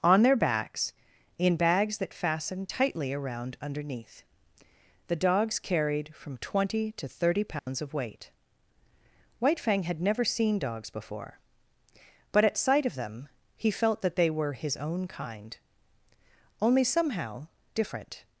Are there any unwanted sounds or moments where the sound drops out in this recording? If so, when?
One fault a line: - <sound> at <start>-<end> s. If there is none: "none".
- dropout at 7.6-7.7 s